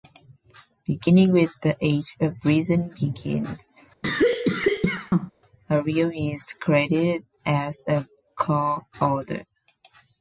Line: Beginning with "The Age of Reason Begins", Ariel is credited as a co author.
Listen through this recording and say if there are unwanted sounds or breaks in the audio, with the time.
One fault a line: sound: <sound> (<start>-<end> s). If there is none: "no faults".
sound: cough (4.0-5.3 s)